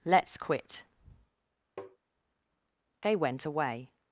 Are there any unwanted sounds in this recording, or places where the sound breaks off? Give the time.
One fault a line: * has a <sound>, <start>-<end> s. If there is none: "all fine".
* has a tap, 1.8-2.0 s